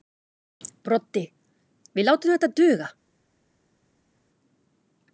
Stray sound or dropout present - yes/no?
no